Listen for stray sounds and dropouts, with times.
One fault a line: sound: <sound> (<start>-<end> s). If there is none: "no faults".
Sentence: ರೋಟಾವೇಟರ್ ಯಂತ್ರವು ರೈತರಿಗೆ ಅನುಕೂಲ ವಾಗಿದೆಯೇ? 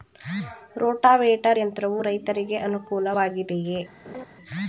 sound: laugh (4.0-4.3 s)